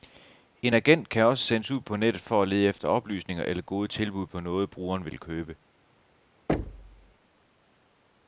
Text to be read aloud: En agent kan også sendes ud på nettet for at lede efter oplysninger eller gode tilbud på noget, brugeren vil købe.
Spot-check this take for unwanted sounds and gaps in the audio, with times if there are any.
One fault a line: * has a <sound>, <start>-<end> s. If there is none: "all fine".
* has a thud, 6.5-7.1 s